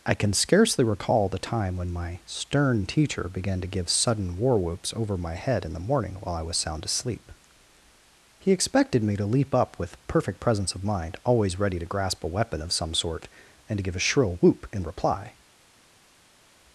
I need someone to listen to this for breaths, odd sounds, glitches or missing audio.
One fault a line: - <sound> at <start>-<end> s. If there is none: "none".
none